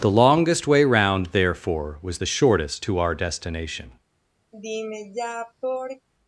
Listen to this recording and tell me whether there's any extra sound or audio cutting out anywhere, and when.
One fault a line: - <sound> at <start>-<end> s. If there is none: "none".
- sigh at 4.5-6.1 s